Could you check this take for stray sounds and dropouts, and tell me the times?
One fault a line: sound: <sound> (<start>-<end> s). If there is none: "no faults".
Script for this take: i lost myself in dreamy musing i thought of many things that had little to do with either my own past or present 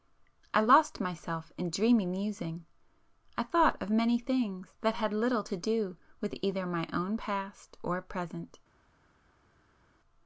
no faults